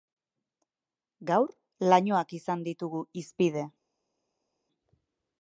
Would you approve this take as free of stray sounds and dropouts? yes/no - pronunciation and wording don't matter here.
yes